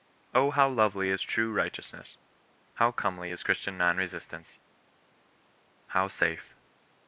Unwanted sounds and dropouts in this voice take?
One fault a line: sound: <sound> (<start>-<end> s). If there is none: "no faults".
no faults